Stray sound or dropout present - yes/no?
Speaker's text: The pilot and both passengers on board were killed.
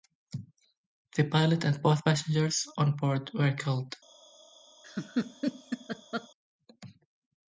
yes